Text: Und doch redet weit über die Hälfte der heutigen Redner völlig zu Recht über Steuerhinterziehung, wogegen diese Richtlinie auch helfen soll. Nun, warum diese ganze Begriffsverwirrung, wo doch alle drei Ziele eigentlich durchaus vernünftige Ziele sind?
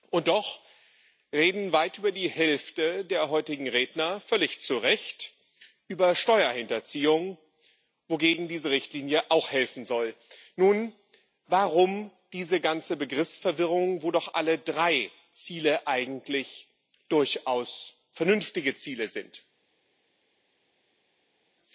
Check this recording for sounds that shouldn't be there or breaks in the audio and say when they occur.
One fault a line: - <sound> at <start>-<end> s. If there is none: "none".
none